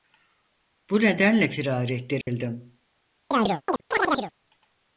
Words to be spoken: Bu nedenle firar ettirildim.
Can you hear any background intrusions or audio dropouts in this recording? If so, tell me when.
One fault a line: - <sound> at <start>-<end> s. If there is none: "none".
- dropout at 2.2-2.3 s
- chirp at 3.3-4.3 s